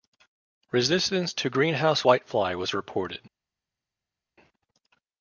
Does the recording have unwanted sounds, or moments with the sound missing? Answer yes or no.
no